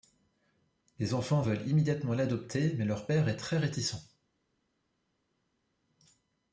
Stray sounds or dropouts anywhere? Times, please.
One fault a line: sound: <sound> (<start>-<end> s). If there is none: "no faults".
no faults